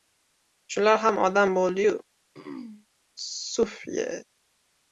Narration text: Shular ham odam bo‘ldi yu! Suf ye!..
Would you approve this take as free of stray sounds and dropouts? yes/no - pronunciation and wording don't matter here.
no